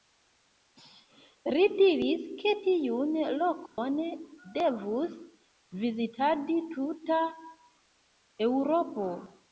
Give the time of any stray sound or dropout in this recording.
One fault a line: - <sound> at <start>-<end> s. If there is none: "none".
- dropout at 3.7-3.8 s